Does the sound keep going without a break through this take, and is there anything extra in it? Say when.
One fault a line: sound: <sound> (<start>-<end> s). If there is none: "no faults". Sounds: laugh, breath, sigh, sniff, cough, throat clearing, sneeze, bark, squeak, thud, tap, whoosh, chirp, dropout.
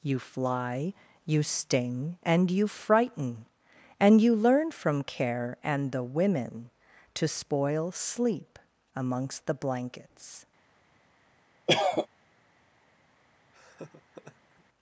sound: cough (11.7-12.1 s)
sound: laugh (13.5-14.7 s)